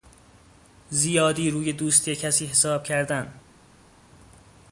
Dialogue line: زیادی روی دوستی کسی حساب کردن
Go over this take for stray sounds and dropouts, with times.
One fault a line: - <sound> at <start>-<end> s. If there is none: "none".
none